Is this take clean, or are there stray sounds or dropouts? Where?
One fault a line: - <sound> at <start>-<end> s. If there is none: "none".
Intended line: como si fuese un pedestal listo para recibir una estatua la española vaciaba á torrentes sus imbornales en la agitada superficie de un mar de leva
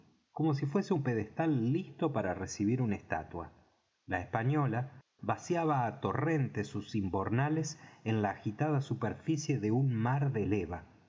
none